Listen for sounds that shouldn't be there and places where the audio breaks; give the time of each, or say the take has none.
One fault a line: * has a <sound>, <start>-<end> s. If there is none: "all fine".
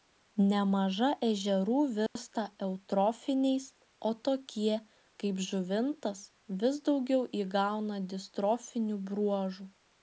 * has a dropout, 2.1-2.2 s